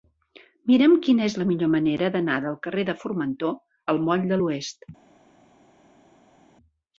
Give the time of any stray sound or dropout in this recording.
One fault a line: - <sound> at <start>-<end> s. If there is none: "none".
none